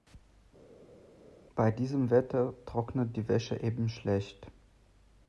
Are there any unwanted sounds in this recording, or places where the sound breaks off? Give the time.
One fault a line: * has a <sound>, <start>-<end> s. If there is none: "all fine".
all fine